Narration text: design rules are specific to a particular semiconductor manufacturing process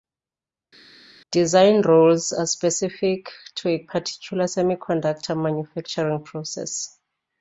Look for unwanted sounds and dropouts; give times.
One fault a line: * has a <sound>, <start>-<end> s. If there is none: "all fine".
all fine